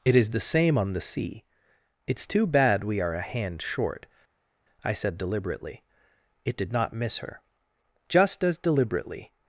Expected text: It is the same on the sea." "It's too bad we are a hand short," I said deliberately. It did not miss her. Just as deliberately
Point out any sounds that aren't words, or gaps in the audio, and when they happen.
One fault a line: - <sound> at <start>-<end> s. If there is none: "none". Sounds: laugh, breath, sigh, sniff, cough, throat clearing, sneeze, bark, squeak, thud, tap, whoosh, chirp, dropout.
none